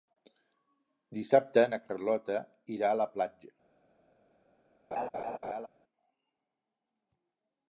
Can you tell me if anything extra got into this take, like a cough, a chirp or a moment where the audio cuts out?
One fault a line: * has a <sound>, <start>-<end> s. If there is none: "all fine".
* has a laugh, 4.9-5.7 s